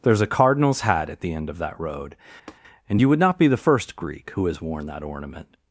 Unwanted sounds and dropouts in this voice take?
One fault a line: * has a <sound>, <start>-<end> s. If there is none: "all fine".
* has a tap, 2.5-2.6 s